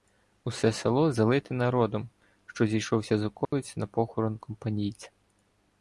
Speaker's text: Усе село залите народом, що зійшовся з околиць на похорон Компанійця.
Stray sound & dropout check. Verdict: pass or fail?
fail